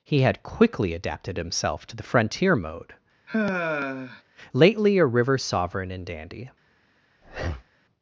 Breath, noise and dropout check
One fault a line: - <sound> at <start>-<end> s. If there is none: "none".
- sigh at 3.3-4.2 s
- breath at 7.2-7.7 s